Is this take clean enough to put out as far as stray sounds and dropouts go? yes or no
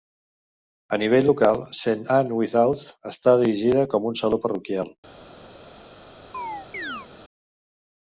no